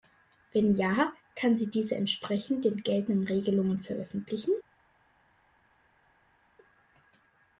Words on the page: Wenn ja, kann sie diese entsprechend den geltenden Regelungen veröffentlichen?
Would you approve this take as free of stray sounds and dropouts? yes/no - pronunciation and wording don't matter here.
yes